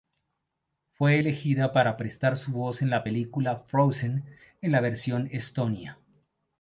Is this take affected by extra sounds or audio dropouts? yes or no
no